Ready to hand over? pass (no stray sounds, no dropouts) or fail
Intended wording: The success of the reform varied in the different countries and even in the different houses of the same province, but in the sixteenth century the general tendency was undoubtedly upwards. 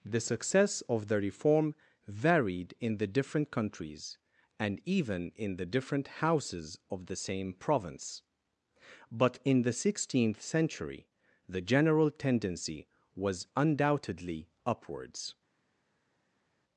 pass